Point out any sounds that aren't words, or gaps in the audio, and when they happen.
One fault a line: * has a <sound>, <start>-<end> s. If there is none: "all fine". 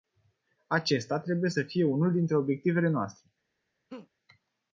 * has a laugh, 3.9-4.1 s